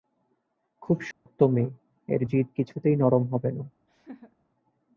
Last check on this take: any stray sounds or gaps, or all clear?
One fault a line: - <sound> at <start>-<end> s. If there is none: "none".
- dropout at 1.1-1.3 s
- laugh at 3.9-4.4 s